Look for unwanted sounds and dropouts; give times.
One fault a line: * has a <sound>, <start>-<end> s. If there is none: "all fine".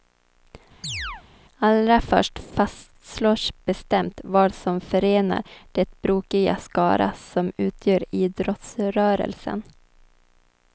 * has a chirp, 0.8-1.2 s